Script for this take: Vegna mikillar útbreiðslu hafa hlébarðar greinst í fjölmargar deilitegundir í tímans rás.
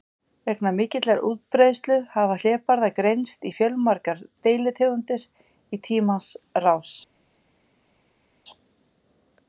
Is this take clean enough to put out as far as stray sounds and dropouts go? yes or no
yes